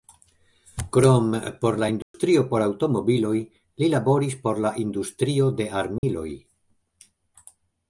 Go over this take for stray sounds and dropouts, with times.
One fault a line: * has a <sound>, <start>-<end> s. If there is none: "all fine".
* has a dropout, 2.0-2.1 s
* has a dropout, 6.0-6.0 s